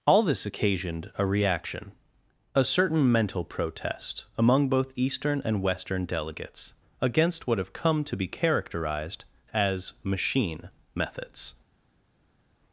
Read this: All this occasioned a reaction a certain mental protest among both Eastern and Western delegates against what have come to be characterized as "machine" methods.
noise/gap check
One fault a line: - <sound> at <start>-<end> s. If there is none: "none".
none